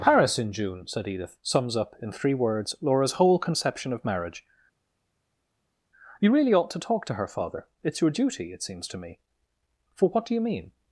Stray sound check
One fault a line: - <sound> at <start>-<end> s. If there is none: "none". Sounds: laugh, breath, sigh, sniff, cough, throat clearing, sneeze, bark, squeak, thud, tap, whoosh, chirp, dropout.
none